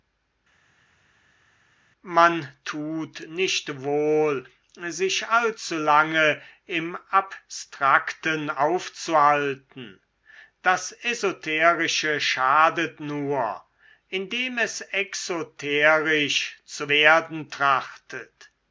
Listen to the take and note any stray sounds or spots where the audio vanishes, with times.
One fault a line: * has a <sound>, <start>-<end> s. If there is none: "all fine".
all fine